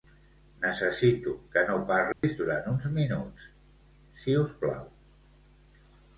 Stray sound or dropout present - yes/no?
yes